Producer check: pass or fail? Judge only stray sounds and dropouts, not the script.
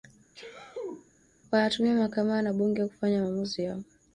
fail